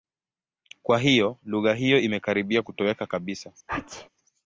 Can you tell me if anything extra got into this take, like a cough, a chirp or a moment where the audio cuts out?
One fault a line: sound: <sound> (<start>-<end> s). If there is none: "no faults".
sound: sneeze (3.7-4.1 s)